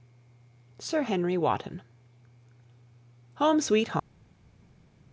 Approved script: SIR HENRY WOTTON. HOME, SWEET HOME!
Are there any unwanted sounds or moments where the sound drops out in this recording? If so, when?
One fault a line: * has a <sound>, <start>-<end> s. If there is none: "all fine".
all fine